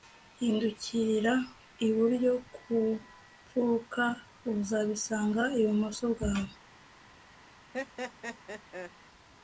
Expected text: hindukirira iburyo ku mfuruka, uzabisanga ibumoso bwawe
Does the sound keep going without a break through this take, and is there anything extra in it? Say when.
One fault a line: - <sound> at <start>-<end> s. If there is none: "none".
- laugh at 7.7-8.9 s